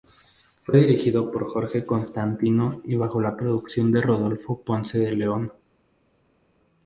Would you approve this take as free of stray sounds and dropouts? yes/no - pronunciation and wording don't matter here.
yes